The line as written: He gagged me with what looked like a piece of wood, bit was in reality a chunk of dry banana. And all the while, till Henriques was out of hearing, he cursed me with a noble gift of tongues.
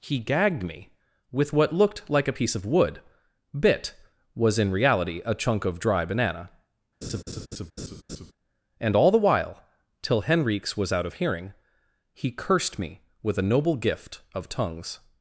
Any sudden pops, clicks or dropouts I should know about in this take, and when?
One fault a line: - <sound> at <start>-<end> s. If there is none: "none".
- laugh at 7.0-8.3 s